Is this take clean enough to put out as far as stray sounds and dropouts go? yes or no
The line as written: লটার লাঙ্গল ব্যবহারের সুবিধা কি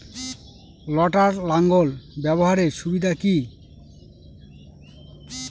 yes